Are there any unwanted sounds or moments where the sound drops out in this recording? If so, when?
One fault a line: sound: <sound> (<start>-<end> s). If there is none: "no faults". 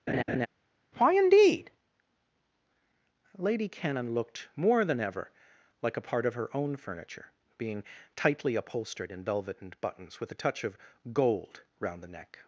sound: laugh (0.1-0.5 s)